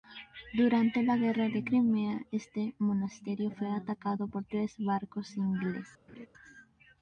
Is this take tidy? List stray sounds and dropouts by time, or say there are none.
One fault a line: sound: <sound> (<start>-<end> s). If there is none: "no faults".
sound: laugh (6.1-6.3 s)